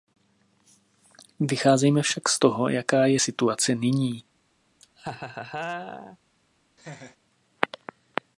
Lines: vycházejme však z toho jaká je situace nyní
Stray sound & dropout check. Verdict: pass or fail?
fail